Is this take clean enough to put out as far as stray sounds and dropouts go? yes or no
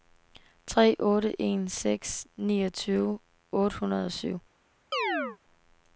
no